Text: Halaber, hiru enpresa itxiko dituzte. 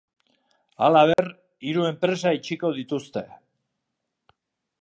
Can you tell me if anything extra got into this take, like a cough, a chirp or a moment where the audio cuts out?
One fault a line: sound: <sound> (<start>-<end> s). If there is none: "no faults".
sound: dropout (1.1-1.2 s)